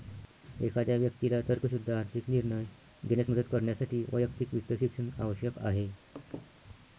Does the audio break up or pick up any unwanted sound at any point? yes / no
yes